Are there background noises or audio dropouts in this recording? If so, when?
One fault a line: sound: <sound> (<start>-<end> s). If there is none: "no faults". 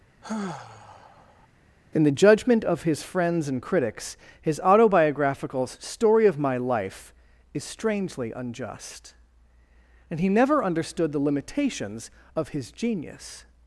sound: sigh (0.2-1.5 s)